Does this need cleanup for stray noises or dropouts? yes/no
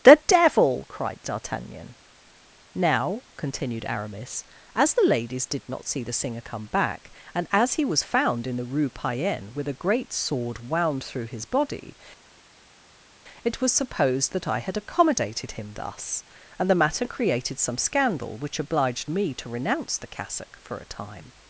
no